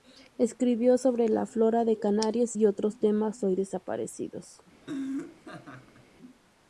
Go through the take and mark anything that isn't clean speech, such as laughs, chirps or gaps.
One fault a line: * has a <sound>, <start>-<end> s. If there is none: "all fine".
* has a laugh, 4.8-6.1 s